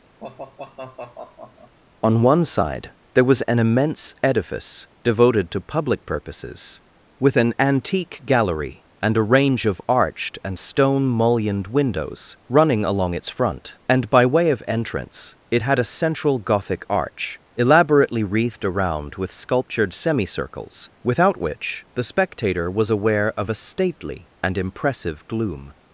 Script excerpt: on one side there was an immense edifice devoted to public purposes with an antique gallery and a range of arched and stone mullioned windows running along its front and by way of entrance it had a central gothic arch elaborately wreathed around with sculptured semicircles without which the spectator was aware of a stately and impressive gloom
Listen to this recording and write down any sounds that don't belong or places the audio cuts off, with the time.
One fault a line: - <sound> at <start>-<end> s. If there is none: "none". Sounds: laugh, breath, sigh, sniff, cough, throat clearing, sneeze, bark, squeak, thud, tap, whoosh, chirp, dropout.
- sigh at 0.2-1.8 s